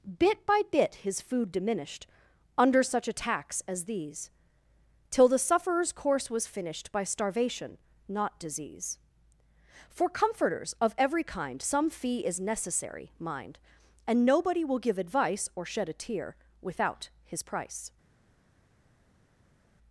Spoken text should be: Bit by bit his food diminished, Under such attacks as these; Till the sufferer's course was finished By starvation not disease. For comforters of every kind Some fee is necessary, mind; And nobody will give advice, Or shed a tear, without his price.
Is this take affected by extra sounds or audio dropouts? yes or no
no